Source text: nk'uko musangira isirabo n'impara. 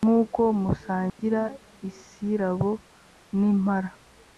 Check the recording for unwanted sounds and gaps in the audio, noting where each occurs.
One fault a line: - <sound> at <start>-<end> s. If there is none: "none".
- dropout at 1.1-1.2 s